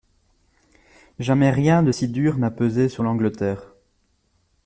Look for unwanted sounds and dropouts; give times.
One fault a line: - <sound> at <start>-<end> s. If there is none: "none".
none